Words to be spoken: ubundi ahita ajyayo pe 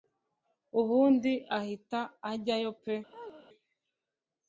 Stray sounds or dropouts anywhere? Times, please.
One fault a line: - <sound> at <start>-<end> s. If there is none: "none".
- chirp at 3.1-3.5 s